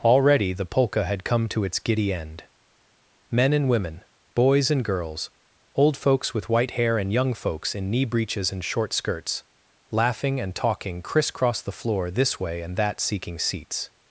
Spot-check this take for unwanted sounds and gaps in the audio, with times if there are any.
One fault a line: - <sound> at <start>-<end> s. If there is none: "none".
none